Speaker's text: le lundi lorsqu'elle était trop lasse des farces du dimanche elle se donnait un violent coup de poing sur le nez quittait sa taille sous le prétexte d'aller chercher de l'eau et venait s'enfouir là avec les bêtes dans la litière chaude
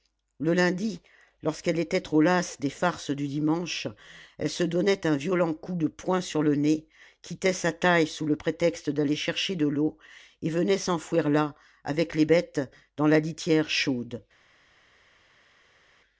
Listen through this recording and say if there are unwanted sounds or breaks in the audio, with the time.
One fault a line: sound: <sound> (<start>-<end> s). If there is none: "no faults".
no faults